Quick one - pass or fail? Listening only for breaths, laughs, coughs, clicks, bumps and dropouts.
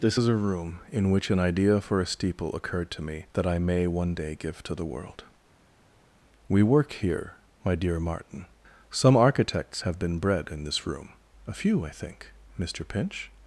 pass